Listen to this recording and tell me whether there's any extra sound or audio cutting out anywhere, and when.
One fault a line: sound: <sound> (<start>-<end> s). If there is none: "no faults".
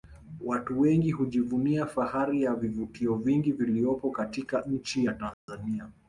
sound: dropout (5.3-5.5 s)